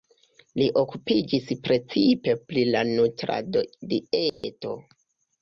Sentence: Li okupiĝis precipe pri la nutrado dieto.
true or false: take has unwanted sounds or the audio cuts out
true